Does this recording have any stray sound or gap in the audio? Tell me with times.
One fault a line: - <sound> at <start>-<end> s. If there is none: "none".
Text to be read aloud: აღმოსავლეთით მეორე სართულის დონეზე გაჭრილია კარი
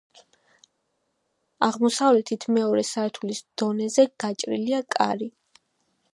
none